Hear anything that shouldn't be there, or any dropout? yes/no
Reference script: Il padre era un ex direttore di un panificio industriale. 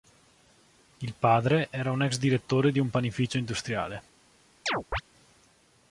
yes